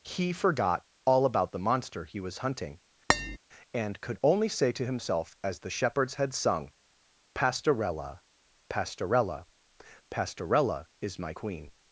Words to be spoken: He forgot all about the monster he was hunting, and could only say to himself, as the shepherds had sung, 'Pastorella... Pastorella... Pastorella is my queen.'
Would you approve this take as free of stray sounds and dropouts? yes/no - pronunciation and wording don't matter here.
no